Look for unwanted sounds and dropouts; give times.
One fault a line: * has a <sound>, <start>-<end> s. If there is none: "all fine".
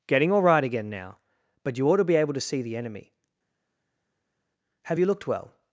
all fine